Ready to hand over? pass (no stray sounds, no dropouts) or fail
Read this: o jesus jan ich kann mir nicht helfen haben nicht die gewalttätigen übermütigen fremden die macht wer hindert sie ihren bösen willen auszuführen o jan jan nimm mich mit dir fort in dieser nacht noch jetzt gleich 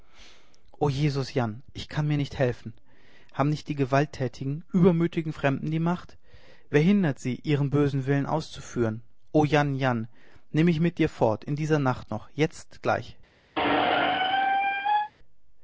fail